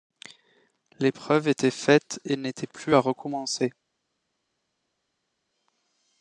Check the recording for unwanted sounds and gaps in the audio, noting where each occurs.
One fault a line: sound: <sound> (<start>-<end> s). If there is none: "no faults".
no faults